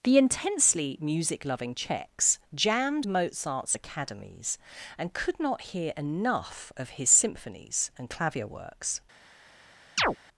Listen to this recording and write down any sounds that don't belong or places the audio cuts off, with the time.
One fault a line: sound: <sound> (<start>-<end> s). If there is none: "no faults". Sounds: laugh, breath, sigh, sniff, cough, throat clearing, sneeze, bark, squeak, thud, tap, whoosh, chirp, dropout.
sound: chirp (10.0-10.2 s)